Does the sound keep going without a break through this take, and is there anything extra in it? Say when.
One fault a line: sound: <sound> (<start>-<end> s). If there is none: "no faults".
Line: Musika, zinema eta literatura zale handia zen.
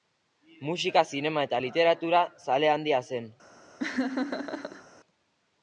sound: laugh (3.8-4.8 s)